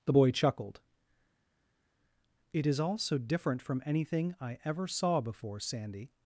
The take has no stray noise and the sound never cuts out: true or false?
true